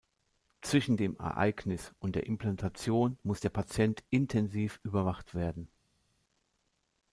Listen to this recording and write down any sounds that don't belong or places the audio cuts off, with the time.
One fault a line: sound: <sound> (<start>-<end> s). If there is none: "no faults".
no faults